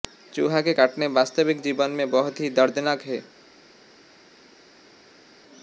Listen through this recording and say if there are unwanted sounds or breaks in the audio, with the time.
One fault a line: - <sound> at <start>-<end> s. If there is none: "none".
none